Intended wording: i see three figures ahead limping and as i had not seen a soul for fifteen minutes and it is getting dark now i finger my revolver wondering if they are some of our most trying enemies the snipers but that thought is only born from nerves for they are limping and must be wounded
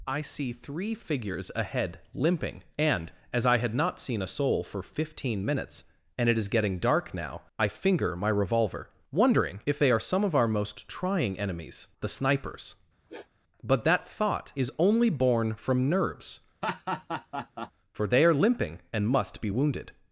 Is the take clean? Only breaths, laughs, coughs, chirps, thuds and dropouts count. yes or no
no